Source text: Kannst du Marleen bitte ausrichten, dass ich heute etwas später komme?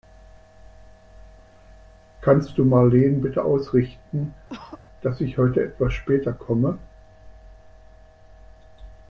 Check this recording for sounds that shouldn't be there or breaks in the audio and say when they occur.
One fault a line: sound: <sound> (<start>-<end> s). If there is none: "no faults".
sound: cough (4.5-4.8 s)